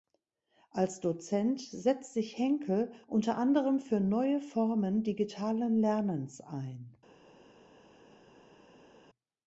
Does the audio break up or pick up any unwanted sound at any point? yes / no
no